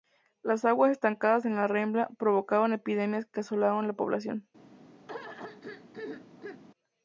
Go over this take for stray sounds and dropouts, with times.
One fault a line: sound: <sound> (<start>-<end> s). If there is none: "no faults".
sound: throat clearing (5.1-6.6 s)